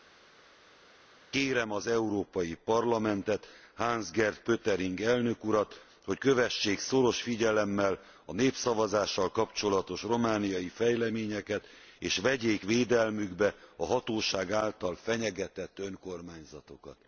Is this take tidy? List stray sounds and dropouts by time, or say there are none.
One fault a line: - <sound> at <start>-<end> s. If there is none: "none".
none